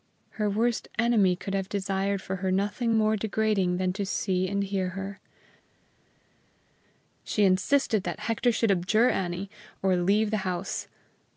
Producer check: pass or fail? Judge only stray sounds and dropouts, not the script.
pass